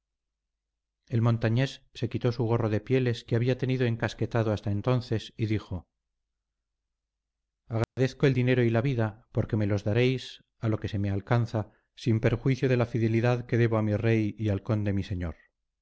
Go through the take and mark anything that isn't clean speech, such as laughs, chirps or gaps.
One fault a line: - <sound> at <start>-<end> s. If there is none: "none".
- dropout at 7.8-8.0 s